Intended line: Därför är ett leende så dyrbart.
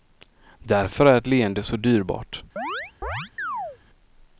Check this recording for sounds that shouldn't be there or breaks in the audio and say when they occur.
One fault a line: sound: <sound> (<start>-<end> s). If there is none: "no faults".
sound: chirp (2.6-3.8 s)